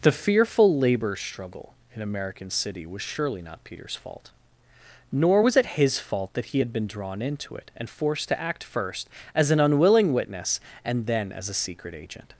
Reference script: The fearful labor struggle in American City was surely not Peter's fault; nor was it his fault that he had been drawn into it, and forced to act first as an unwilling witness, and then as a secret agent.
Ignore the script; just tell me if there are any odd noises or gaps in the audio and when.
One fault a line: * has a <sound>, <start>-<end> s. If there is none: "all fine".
all fine